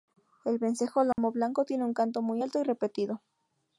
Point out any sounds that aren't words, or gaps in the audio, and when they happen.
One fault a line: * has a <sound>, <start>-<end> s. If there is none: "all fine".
* has a dropout, 1.1-1.2 s